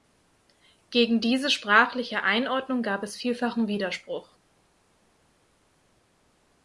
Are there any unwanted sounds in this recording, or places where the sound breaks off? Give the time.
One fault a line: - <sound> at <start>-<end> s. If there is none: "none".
none